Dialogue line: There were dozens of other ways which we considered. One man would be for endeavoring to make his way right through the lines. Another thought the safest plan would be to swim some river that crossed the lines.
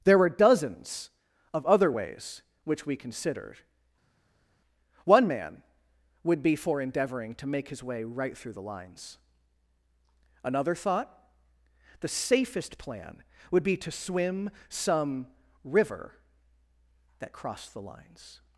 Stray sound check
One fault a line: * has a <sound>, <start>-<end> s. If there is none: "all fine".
all fine